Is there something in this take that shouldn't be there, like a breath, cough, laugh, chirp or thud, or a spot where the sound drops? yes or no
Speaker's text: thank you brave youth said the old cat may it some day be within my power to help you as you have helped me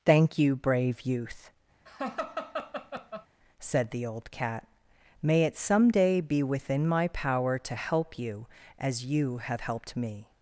yes